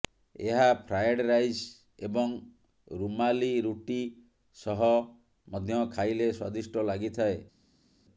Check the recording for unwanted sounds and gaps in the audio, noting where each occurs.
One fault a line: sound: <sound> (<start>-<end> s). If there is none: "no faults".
no faults